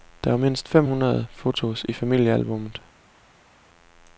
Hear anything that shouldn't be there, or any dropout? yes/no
no